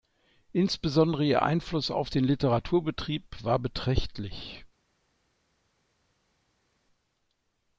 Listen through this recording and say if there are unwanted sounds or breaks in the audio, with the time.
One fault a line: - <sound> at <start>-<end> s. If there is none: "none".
none